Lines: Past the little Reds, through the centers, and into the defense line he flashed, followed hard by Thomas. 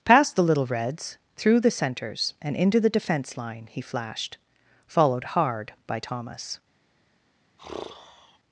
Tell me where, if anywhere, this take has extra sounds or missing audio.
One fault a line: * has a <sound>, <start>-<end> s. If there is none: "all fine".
* has a sigh, 7.6-8.4 s